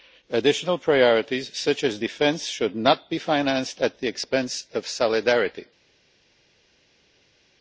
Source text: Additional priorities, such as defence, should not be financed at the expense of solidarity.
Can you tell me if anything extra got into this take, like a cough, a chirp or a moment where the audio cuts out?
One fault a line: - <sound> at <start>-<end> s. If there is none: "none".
none